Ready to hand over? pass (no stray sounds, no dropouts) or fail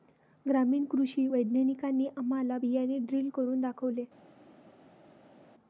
pass